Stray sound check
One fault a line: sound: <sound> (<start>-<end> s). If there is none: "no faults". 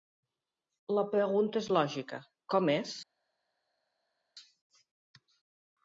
no faults